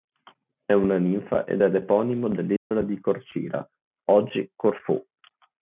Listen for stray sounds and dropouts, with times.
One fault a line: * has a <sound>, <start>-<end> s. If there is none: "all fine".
* has a dropout, 2.6-2.7 s